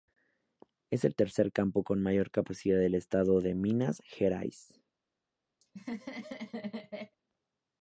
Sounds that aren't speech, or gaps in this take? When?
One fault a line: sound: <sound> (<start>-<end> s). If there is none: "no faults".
sound: laugh (5.6-7.2 s)